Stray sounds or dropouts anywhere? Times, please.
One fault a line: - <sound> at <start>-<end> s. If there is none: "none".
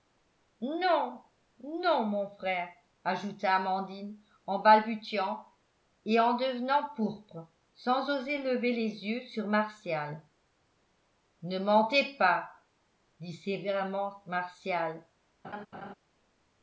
- laugh at 15.4-15.9 s